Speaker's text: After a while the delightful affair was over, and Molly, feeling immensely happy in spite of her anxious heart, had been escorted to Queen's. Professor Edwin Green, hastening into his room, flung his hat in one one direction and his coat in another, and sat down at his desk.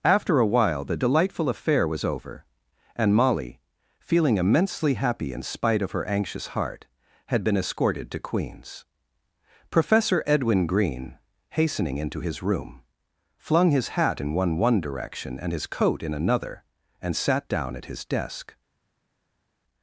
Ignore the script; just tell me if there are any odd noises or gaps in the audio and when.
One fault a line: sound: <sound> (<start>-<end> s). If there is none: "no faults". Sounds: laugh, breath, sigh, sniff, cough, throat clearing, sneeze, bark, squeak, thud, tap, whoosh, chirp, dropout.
no faults